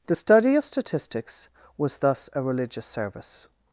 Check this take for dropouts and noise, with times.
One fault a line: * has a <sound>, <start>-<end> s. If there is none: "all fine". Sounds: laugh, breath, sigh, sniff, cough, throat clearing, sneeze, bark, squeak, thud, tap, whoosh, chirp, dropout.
all fine